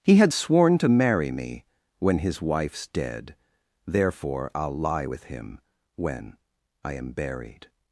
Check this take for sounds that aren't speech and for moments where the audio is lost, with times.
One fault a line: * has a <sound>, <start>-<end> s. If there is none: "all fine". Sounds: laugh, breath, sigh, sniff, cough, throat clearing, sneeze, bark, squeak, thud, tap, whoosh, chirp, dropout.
all fine